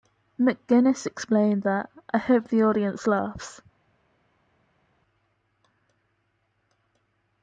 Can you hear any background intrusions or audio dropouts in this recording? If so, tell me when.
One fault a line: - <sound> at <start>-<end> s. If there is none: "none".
none